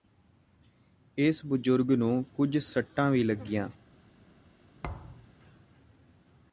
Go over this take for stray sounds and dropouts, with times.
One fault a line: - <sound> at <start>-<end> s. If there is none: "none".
- thud at 4.8-5.3 s